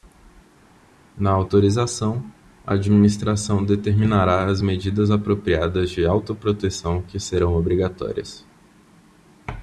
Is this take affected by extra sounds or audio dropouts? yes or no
no